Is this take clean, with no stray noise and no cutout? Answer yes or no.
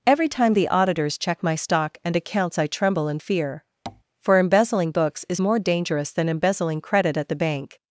no